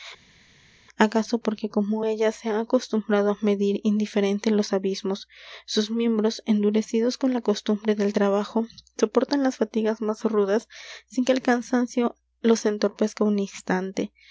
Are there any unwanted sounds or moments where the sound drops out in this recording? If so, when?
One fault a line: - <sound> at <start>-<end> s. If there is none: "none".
none